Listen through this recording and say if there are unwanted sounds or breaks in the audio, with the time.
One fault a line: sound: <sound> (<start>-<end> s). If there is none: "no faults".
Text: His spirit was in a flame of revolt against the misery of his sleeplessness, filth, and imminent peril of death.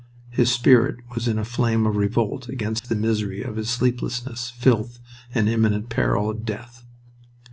sound: dropout (2.8-2.8 s)